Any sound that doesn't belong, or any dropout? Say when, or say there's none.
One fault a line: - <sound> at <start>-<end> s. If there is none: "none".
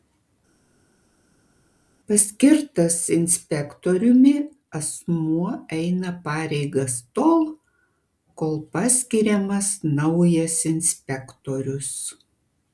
none